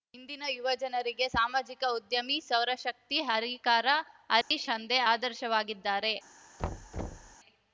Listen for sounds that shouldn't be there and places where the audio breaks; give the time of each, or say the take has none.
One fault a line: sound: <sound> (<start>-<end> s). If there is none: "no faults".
sound: dropout (4.4-4.5 s)
sound: thud (6.6-7.4 s)